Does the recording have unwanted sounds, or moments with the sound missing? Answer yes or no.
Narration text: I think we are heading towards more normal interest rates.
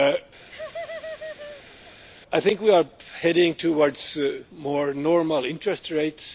yes